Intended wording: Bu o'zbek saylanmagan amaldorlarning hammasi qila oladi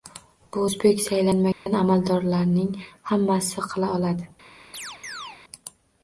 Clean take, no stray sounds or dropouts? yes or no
no